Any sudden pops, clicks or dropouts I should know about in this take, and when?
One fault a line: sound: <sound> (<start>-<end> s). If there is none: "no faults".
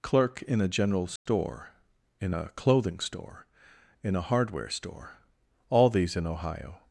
sound: dropout (1.2-1.3 s)